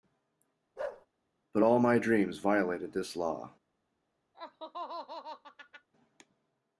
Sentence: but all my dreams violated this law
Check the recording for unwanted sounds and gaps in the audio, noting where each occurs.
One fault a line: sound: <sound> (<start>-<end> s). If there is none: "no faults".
sound: bark (0.8-1.1 s)
sound: laugh (4.3-5.9 s)